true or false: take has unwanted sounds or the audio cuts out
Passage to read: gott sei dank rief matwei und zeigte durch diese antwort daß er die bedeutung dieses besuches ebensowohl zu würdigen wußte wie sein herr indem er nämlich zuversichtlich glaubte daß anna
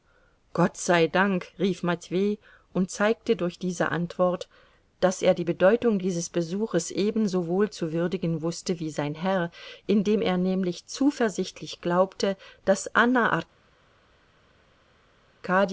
false